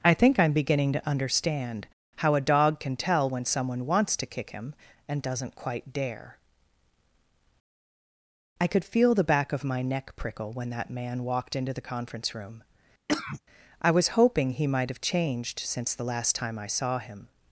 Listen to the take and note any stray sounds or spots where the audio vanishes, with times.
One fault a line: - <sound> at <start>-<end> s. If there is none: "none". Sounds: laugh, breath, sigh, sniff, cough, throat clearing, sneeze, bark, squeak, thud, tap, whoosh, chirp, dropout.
- cough at 13.1-13.4 s